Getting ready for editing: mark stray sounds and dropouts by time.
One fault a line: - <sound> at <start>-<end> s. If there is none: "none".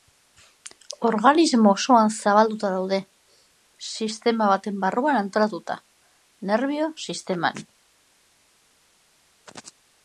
none